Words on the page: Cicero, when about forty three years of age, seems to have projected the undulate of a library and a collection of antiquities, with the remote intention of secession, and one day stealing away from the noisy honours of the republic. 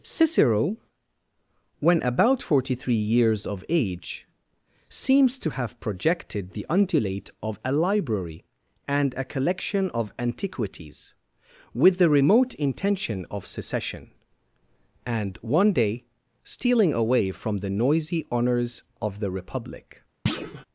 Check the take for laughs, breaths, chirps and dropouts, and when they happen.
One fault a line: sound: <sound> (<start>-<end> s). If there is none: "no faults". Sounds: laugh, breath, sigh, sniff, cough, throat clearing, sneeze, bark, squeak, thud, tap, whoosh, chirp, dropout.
sound: thud (20.3-20.7 s)